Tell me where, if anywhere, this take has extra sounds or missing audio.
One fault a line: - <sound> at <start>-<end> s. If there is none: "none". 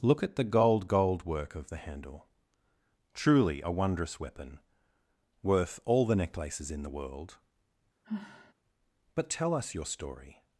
- sigh at 8.0-8.5 s